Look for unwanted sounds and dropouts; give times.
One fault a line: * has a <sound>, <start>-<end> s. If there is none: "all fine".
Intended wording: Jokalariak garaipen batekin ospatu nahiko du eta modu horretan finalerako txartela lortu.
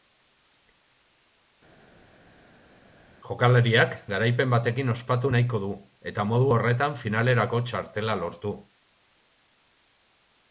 all fine